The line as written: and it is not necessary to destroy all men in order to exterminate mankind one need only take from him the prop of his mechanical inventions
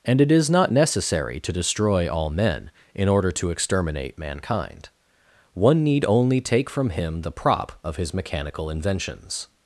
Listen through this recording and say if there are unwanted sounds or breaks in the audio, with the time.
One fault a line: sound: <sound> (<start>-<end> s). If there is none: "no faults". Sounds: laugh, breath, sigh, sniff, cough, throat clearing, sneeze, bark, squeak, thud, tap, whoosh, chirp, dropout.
no faults